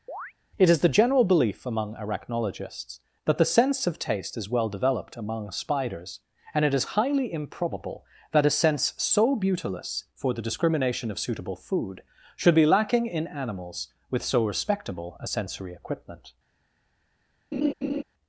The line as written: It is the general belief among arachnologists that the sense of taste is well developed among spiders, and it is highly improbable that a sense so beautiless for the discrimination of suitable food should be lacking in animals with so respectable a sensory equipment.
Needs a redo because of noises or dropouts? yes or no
yes